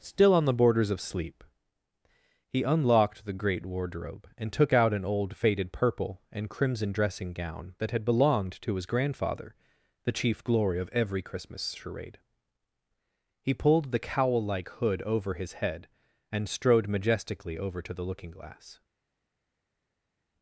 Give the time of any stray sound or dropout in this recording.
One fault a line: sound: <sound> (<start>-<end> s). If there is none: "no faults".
no faults